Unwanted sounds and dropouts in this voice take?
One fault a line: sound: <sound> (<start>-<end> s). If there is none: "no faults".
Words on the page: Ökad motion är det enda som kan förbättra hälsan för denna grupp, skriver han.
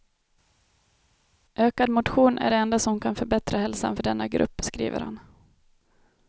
no faults